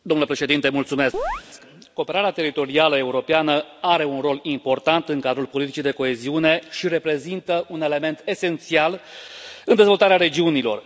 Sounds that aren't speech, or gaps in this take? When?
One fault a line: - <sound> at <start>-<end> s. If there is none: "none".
- chirp at 1.1-1.4 s